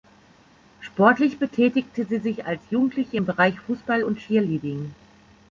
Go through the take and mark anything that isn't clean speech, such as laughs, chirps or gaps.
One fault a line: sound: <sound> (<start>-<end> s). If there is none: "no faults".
no faults